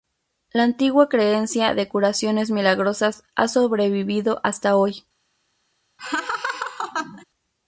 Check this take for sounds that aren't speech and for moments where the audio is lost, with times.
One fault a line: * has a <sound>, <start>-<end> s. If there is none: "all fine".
* has a laugh, 6.0-7.2 s